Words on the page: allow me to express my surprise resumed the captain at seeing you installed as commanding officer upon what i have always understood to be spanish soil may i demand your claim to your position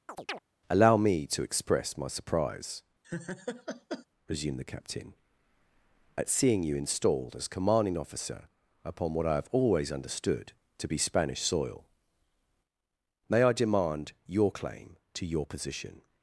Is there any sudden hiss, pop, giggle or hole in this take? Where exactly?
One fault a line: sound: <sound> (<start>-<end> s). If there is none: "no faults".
sound: chirp (0.1-0.4 s)
sound: laugh (3.0-4.1 s)